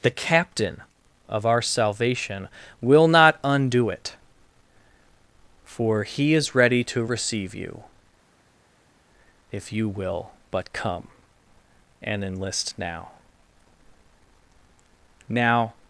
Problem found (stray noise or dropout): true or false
false